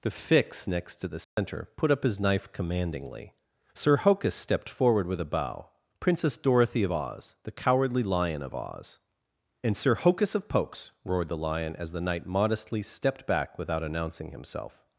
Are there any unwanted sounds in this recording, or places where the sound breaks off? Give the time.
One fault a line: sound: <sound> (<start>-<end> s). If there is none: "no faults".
sound: dropout (1.2-1.4 s)